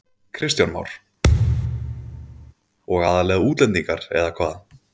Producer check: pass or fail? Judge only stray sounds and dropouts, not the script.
fail